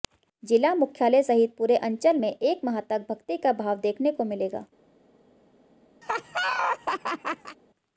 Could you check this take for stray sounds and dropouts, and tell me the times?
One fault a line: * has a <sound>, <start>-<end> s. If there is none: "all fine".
* has a laugh, 6.0-7.6 s